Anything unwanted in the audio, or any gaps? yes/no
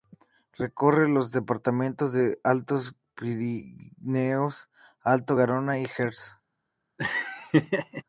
yes